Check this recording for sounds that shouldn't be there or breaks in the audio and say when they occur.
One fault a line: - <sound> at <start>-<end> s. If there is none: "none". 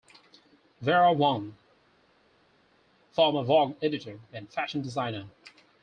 none